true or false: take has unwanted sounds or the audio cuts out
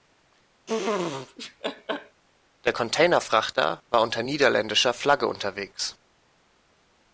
true